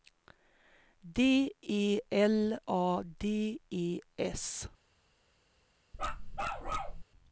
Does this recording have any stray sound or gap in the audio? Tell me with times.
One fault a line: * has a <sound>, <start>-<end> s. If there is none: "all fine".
* has a bark, 5.9-7.0 s